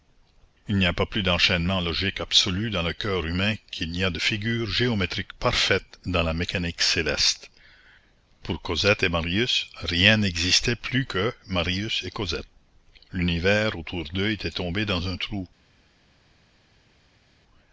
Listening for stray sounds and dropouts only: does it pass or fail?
pass